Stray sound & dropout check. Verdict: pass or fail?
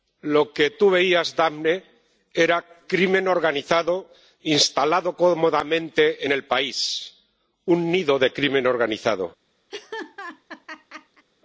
fail